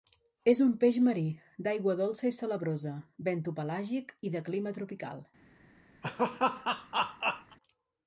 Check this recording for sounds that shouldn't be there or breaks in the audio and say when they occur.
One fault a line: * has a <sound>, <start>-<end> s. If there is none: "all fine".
* has a laugh, 6.0-7.6 s